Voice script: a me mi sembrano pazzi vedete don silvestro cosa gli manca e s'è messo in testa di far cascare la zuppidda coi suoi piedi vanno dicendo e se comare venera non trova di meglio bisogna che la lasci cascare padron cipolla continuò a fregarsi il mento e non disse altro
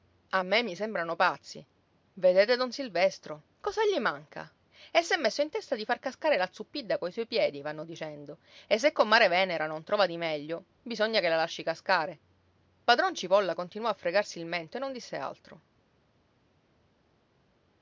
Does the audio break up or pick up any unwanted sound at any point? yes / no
no